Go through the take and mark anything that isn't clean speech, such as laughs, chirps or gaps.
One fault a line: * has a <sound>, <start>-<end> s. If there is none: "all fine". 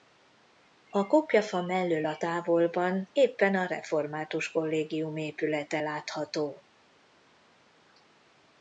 all fine